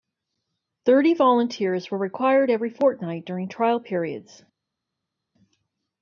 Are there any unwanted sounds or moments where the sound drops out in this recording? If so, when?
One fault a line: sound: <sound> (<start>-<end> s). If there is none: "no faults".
no faults